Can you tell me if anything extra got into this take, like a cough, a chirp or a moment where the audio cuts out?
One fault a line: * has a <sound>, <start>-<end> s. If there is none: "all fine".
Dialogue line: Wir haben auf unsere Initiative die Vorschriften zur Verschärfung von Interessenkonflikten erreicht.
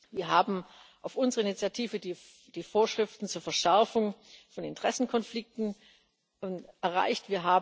all fine